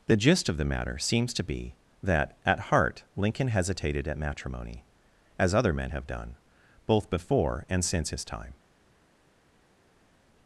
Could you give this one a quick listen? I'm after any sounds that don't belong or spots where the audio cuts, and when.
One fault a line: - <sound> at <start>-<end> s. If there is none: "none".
none